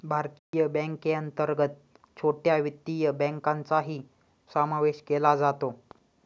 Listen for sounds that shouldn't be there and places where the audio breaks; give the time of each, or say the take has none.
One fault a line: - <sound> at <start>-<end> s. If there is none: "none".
- dropout at 0.4-0.5 s